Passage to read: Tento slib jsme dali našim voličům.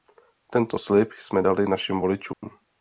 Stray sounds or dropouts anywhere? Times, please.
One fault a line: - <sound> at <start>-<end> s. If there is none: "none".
- dropout at 2.3-2.4 s